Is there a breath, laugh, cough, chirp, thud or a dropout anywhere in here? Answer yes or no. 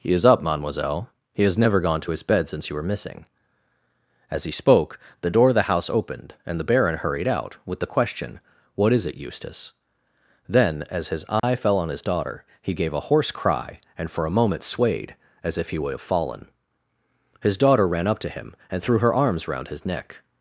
yes